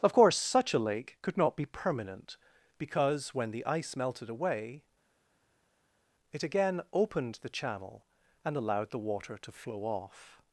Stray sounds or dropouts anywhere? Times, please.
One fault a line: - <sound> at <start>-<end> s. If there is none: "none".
none